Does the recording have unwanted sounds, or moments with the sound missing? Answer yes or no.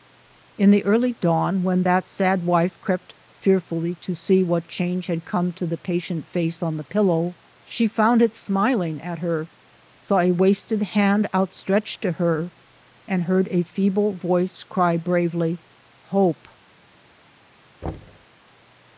yes